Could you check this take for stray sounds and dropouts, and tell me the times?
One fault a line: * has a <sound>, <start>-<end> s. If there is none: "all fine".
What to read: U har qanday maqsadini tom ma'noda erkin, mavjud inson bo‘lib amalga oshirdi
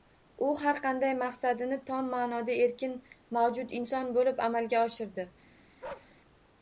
* has a bark, 5.8-6.1 s